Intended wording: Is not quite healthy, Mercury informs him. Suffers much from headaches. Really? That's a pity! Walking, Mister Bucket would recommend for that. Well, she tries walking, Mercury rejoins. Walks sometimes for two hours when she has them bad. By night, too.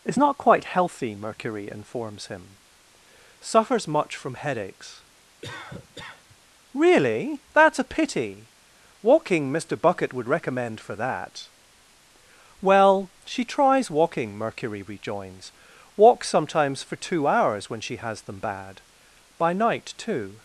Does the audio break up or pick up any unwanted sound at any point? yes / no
yes